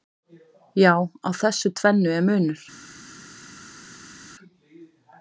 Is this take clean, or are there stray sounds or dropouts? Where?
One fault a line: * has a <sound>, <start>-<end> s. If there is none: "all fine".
all fine